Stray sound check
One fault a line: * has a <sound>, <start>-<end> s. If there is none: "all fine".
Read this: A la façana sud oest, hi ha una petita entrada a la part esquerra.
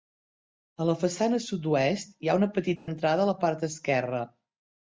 * has a dropout, 2.8-2.9 s